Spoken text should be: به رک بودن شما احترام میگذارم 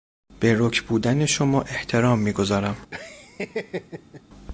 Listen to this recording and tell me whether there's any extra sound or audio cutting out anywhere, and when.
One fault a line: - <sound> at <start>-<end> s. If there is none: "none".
- laugh at 2.9-4.2 s